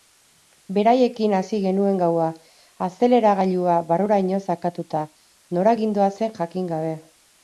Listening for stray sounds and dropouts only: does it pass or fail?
pass